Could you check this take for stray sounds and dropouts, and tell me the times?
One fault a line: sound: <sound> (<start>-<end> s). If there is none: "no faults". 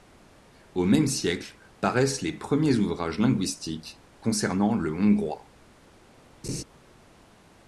sound: laugh (6.4-6.6 s)